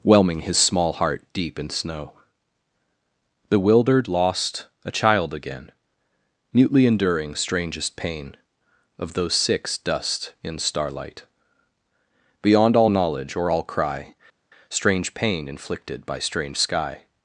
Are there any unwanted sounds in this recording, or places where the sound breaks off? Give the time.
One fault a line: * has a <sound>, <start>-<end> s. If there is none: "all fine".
all fine